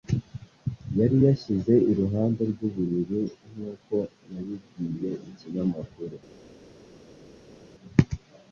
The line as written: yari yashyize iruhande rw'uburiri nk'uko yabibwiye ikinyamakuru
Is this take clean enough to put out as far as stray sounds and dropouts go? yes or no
yes